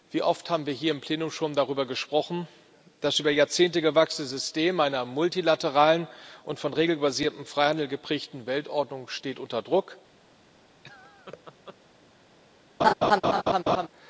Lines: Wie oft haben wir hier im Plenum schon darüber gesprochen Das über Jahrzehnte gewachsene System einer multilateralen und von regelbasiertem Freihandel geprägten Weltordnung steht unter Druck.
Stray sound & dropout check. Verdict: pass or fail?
fail